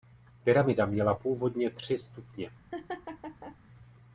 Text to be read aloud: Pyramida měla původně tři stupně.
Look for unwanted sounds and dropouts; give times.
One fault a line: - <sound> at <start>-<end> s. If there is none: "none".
- laugh at 2.7-3.6 s